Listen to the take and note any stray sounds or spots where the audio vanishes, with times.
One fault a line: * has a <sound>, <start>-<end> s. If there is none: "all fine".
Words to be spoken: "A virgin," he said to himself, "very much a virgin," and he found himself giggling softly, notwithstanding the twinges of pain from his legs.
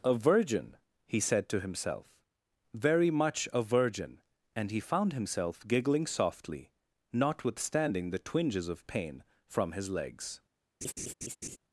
* has a laugh, 10.8-11.6 s